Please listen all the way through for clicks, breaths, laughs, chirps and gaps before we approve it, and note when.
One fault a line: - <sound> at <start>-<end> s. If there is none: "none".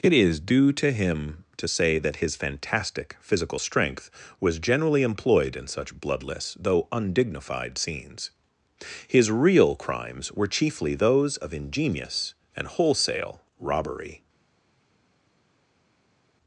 none